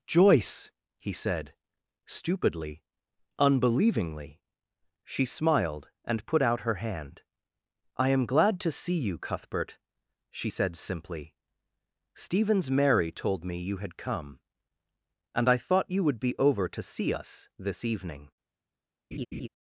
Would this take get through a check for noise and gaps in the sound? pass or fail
fail